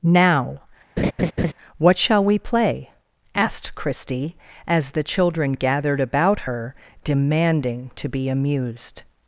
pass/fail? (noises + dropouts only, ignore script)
fail